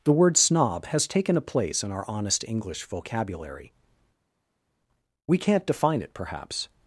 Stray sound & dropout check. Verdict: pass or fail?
pass